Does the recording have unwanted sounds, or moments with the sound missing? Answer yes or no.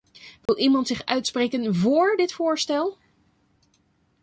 yes